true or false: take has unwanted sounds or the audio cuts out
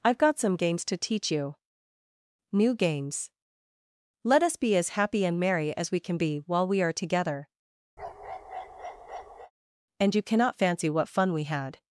true